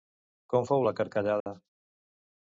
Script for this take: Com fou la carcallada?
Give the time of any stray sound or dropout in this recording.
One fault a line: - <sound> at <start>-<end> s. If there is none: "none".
- dropout at 1.4-1.5 s